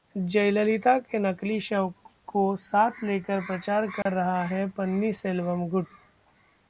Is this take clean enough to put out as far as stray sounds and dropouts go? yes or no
no